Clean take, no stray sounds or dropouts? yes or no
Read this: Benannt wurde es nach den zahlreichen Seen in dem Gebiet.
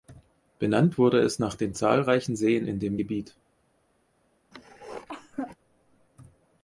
no